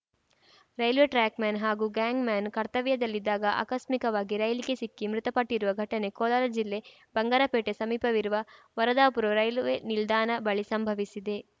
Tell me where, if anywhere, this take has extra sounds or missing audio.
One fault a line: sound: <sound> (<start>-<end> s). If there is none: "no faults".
no faults